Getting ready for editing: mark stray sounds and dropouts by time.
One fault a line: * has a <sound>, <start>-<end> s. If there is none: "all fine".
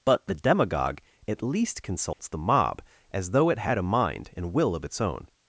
* has a dropout, 2.1-2.2 s